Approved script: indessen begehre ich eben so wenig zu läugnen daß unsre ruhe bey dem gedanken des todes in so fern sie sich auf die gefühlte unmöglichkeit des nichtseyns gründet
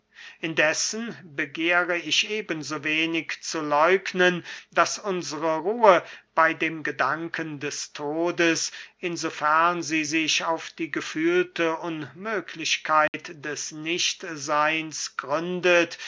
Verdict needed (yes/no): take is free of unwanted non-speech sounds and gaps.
no